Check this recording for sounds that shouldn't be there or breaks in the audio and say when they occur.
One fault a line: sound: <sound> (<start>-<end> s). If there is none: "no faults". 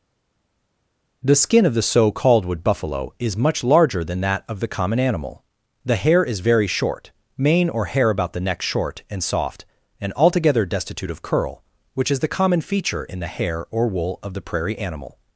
no faults